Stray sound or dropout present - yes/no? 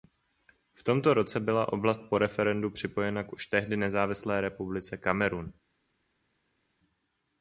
no